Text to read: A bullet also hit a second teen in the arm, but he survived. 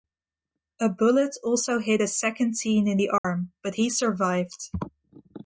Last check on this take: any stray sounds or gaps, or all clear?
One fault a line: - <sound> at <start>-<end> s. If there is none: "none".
- dropout at 3.2-3.2 s